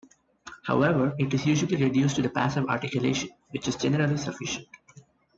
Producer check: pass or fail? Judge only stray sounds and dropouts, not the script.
pass